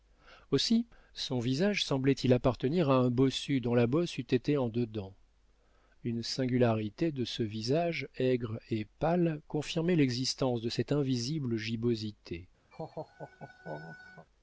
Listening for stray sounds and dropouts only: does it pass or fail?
fail